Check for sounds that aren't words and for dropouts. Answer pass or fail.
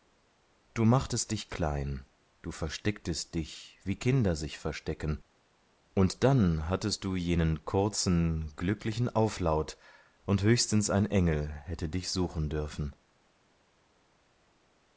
pass